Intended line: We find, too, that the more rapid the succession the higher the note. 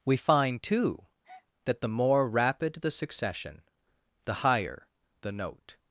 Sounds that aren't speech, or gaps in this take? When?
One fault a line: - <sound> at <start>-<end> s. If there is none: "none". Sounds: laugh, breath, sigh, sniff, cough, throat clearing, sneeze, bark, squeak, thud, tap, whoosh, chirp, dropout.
- breath at 1.2-1.5 s